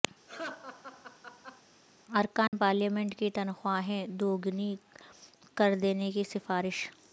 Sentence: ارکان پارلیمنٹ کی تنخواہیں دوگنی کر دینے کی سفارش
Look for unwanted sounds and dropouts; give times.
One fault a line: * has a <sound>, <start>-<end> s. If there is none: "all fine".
* has a laugh, 0.3-1.6 s
* has a dropout, 2.5-2.5 s